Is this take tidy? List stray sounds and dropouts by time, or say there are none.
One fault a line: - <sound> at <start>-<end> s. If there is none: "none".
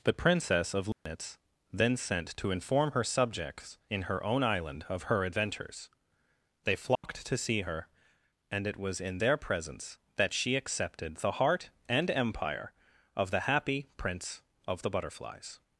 - dropout at 0.9-1.1 s
- dropout at 7.0-7.0 s